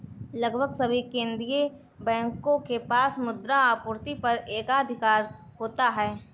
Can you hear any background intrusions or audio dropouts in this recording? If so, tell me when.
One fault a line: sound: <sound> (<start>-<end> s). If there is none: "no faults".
no faults